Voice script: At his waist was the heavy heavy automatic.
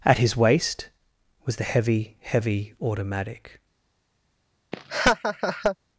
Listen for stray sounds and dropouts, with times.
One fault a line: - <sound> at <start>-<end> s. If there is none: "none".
- laugh at 4.7-5.8 s